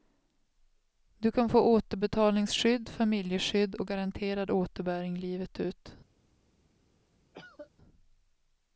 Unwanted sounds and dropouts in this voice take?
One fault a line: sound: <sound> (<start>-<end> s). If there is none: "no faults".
sound: cough (7.3-7.7 s)